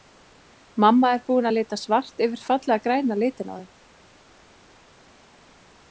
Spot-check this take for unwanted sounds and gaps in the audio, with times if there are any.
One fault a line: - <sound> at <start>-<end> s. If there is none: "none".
none